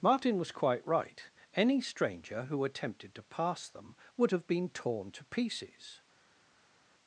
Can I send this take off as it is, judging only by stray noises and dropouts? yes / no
yes